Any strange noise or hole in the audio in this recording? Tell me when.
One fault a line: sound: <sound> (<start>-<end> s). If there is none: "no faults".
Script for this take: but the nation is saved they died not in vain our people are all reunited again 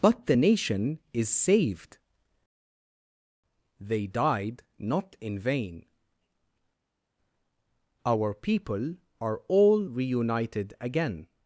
no faults